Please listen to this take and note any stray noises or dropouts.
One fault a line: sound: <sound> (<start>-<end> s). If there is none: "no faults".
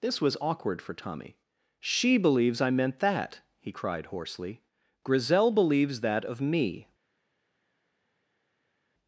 no faults